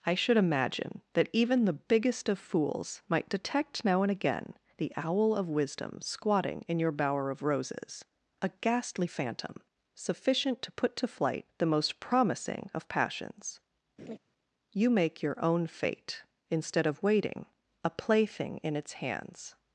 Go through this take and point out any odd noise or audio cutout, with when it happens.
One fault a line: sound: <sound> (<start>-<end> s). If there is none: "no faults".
sound: laugh (14.0-14.2 s)